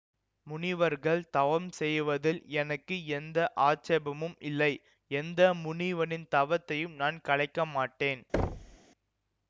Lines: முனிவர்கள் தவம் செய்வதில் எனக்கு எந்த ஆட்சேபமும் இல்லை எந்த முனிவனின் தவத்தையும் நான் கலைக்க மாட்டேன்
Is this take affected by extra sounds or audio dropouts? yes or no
yes